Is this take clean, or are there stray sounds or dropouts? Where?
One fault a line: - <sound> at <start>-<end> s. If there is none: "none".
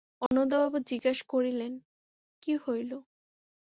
- dropout at 0.3-0.3 s